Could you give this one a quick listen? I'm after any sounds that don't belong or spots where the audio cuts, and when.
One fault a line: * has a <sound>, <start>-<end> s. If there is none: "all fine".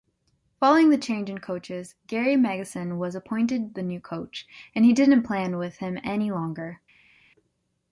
all fine